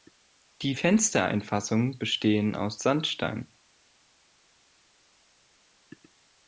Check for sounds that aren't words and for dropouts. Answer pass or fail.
pass